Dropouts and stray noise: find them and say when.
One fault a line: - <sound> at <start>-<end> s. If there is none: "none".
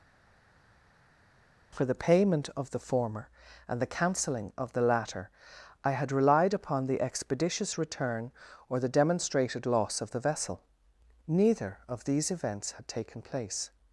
none